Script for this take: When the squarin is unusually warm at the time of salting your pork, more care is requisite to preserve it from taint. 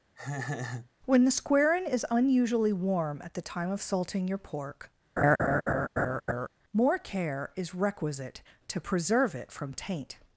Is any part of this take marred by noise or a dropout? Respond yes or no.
yes